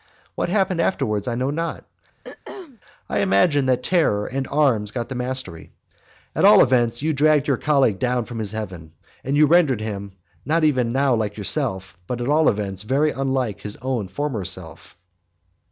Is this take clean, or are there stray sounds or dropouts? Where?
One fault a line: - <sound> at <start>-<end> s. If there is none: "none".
- throat clearing at 2.2-2.8 s